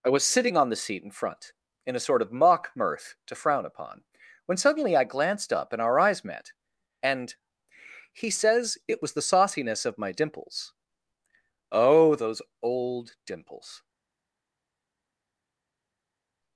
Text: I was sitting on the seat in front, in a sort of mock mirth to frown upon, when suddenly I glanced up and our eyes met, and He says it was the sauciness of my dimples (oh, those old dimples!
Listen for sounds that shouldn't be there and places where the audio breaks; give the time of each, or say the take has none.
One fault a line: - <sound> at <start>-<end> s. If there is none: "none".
none